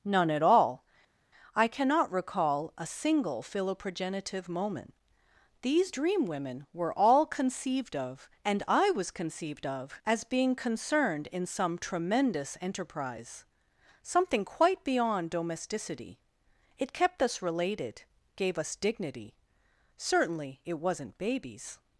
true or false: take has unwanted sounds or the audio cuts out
false